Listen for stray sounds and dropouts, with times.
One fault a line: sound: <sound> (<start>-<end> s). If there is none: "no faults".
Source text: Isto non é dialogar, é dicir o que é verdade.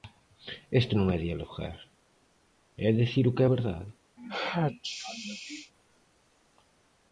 sound: sneeze (4.2-5.7 s)